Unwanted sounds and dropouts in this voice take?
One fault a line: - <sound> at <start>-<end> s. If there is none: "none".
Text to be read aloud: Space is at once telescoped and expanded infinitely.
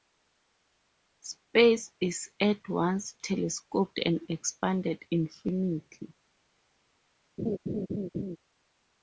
- laugh at 7.4-8.4 s